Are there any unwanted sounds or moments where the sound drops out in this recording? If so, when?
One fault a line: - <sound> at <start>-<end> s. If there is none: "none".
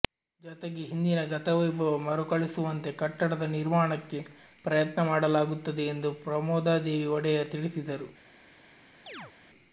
- chirp at 9.1-9.3 s